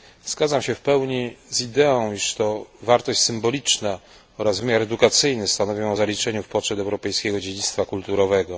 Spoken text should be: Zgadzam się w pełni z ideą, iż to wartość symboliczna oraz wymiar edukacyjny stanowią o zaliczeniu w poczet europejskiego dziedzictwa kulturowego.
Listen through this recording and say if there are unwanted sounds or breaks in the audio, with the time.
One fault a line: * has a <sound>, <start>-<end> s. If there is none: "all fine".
all fine